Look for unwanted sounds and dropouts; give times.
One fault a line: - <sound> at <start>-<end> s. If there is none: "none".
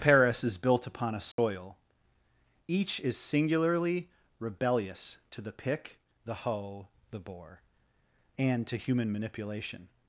- dropout at 1.3-1.4 s